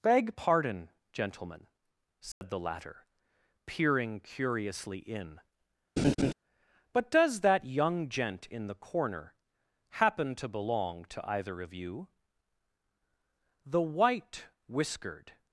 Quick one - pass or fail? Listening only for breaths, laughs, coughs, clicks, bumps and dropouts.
fail